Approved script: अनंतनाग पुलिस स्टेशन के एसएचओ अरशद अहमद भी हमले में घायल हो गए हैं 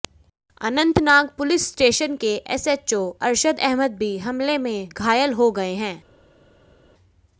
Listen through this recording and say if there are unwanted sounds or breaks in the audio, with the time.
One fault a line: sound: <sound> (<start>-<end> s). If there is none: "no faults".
no faults